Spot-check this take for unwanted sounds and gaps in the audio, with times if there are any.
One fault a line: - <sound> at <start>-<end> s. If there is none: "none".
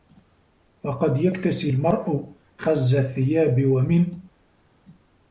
none